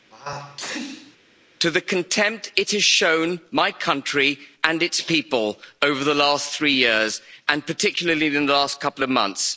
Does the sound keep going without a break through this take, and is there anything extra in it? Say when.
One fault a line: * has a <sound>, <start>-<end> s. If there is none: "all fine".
* has a sneeze, 0.1-1.2 s